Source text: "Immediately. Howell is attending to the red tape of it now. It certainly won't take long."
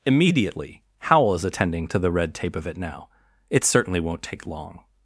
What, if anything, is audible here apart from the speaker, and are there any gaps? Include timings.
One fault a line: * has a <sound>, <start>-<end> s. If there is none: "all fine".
all fine